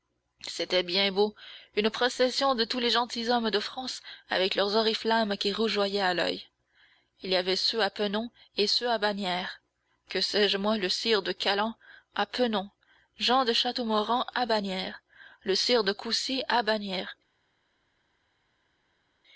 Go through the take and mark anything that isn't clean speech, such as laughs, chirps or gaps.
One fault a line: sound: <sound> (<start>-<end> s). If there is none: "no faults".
no faults